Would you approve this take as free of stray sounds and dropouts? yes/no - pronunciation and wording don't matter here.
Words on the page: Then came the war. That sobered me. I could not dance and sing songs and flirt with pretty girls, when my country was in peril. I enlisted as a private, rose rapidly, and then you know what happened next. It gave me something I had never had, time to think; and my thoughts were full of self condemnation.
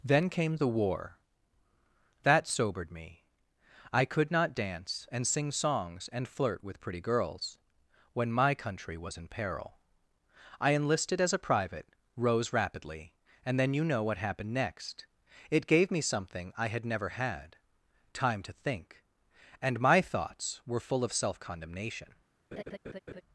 no